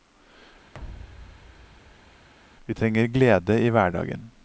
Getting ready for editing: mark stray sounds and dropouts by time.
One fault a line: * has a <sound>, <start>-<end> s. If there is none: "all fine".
* has a thud, 0.7-2.3 s